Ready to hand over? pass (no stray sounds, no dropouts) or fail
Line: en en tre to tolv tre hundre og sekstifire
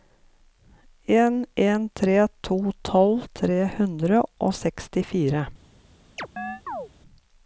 fail